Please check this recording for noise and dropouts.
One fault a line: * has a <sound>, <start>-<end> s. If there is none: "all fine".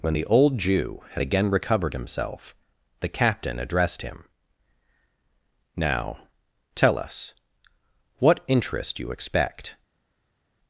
all fine